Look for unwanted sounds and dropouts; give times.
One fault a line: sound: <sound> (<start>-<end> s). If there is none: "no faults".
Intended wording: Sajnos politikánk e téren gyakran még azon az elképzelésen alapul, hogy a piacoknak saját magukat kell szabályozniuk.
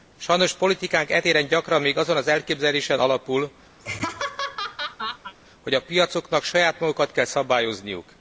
sound: laugh (3.8-5.3 s)